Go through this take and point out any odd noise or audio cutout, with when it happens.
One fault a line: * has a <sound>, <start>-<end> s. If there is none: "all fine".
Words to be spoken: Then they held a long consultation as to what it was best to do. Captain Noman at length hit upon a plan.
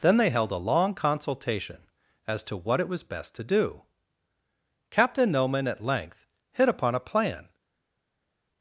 all fine